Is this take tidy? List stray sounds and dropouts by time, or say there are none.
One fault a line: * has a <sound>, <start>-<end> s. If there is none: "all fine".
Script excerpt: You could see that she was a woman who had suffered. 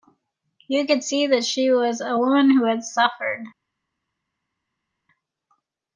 all fine